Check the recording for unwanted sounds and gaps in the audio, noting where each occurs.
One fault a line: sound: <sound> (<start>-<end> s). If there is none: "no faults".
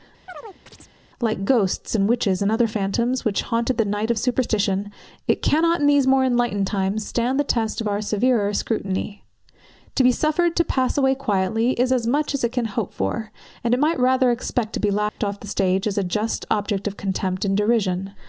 sound: chirp (0.3-0.9 s)
sound: dropout (15.1-15.2 s)